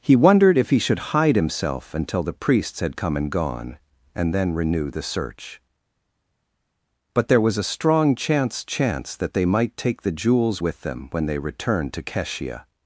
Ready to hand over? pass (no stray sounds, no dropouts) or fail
pass